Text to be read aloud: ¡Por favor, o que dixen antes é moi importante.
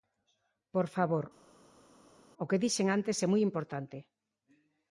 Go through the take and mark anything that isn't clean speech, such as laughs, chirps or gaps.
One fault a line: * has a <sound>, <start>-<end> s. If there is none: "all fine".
all fine